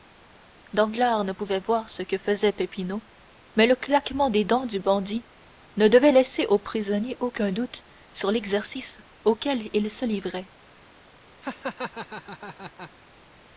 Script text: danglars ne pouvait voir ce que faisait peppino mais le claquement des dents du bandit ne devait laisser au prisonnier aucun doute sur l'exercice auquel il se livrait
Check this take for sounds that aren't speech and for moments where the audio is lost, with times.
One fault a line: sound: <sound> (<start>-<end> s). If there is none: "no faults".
sound: laugh (11.4-12.9 s)